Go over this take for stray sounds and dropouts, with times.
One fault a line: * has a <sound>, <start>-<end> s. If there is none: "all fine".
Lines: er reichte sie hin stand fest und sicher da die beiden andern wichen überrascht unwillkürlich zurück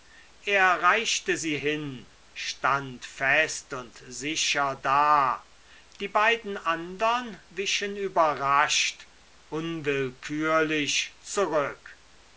all fine